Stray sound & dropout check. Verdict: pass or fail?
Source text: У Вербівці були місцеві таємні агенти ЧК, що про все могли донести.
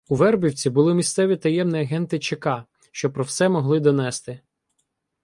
pass